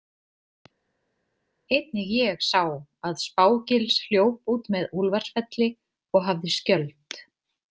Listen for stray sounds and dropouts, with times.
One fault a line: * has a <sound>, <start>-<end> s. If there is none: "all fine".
all fine